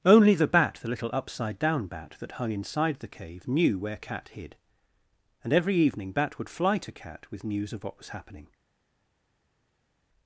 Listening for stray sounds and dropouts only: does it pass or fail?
pass